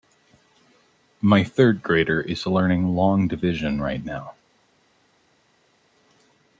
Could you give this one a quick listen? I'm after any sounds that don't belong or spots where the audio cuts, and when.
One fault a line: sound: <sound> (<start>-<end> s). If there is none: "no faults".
no faults